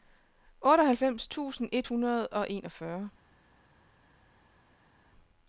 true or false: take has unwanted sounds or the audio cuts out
false